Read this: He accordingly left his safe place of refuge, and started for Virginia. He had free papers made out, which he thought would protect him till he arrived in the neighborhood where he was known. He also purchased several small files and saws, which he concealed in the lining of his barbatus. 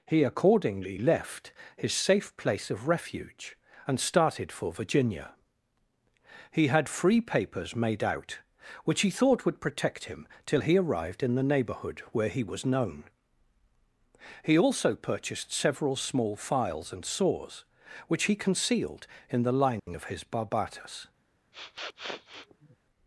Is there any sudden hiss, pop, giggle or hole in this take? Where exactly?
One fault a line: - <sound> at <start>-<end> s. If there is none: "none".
- dropout at 19.8-19.9 s
- sniff at 21.5-22.8 s